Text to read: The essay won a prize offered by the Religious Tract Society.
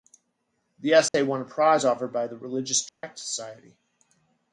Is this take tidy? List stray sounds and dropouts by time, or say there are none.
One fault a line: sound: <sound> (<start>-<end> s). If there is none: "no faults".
sound: dropout (1.1-1.1 s)
sound: dropout (2.9-3.0 s)